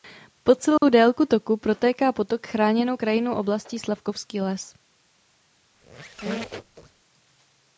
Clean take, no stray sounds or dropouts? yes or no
no